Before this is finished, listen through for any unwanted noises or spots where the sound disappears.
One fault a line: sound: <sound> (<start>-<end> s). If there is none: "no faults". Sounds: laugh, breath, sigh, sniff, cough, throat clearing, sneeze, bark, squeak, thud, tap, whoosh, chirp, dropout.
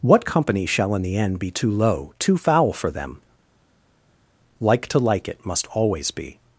no faults